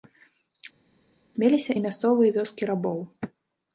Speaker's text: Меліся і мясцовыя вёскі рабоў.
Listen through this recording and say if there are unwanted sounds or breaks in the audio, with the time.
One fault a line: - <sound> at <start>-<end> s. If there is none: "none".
none